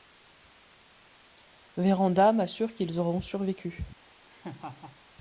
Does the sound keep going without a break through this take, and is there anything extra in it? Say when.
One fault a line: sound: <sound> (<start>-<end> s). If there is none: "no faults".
sound: laugh (4.3-5.0 s)